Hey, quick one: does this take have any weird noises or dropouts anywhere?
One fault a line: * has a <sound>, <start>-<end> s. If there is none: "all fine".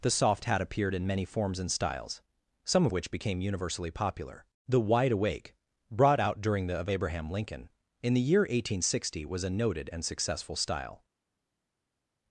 all fine